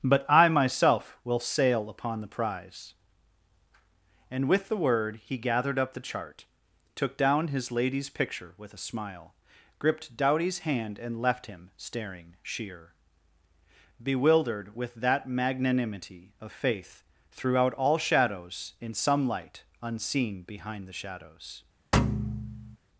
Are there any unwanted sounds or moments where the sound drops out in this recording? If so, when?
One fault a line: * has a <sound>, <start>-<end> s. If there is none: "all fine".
* has a thud, 21.9-22.8 s